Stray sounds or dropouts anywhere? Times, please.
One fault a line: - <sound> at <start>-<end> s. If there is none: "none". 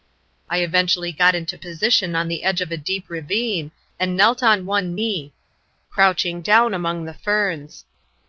none